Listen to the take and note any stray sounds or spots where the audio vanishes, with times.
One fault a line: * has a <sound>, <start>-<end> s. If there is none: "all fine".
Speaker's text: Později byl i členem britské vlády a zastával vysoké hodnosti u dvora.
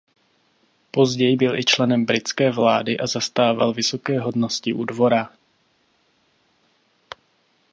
all fine